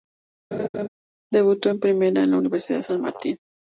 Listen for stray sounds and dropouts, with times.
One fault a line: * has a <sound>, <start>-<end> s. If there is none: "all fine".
* has a laugh, 0.5-0.9 s